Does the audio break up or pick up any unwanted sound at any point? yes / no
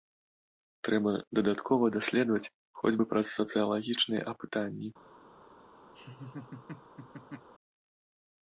yes